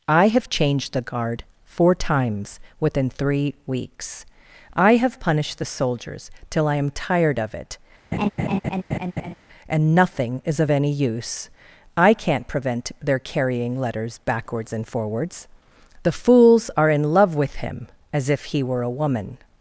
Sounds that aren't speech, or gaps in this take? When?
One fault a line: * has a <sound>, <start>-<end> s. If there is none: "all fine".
* has a laugh, 8.1-9.3 s